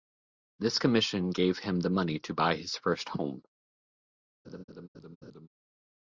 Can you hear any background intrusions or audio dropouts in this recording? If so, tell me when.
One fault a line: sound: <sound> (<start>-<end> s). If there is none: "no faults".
sound: laugh (4.4-5.5 s)